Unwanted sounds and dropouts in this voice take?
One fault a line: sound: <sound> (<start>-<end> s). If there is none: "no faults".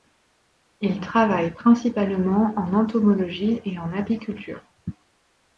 no faults